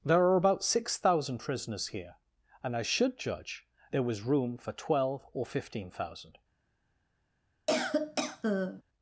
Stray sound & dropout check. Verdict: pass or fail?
fail